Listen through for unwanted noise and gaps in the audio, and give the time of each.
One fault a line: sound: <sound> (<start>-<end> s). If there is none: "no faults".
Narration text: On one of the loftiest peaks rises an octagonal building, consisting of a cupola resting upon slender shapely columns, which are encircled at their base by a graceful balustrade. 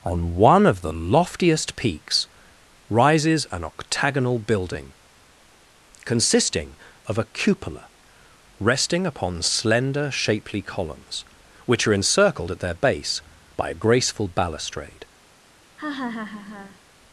sound: laugh (15.8-16.8 s)